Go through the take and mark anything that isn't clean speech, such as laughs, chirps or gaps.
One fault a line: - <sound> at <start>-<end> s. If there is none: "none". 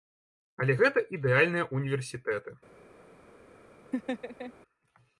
- laugh at 3.9-4.5 s